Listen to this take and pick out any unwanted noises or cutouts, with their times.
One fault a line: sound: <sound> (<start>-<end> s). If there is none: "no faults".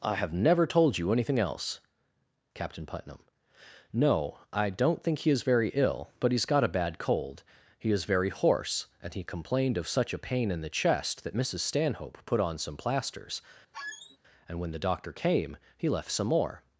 sound: squeak (13.7-14.2 s)